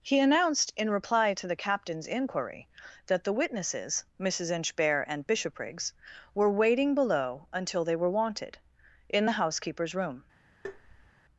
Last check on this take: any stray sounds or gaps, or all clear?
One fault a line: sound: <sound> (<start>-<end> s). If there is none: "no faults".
sound: tap (10.6-11.1 s)